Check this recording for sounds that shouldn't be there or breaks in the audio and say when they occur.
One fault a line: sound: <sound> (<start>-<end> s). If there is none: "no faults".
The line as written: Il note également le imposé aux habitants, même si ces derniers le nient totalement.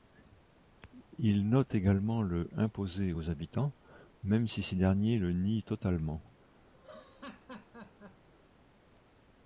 sound: laugh (6.7-8.3 s)